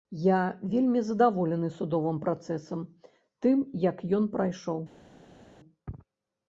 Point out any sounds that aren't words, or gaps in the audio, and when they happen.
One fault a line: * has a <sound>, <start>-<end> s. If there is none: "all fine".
all fine